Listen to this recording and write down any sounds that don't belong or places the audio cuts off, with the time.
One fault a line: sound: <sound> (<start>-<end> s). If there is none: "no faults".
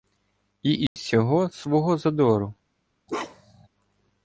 sound: dropout (0.9-1.0 s)
sound: bark (3.1-3.7 s)